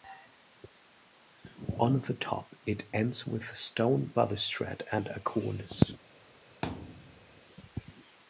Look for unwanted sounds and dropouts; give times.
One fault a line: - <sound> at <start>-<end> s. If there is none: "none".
- thud at 6.6-7.4 s